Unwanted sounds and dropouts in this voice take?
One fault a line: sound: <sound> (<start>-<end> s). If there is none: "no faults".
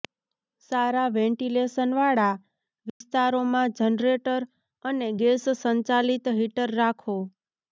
sound: dropout (2.9-3.0 s)